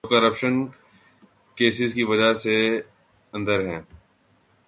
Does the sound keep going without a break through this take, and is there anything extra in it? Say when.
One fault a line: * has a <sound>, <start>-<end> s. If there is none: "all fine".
all fine